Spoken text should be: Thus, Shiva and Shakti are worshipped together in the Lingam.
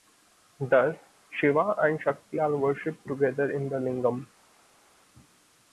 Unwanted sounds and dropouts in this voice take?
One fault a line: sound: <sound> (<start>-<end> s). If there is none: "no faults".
no faults